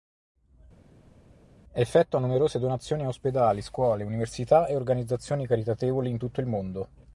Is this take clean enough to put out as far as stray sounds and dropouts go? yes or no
yes